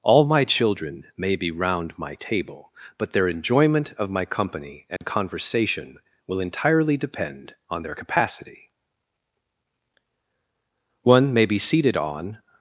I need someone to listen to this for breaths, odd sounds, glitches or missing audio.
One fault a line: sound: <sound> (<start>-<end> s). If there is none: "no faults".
sound: dropout (5.0-5.0 s)